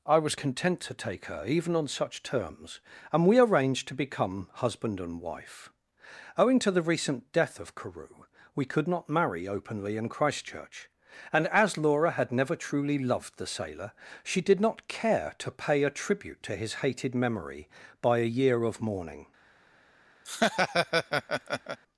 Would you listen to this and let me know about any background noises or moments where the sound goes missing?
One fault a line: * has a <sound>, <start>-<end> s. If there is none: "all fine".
* has a laugh, 20.2-21.8 s